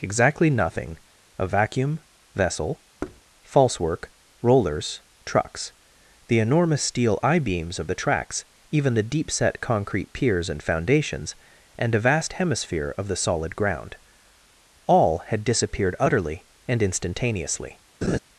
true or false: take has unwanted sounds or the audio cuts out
true